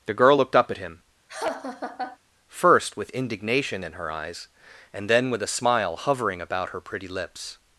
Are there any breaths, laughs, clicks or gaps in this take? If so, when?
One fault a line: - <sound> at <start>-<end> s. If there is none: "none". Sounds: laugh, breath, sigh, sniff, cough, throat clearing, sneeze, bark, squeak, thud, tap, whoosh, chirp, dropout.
- laugh at 1.3-2.2 s